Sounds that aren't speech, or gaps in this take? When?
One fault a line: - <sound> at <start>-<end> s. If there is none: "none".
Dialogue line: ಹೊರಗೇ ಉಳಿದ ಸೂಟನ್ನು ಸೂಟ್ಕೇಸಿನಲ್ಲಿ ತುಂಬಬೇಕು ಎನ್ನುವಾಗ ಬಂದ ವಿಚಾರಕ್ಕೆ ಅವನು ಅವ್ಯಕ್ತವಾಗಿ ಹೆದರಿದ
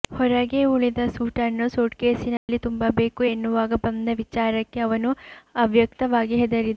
- dropout at 2.4-2.5 s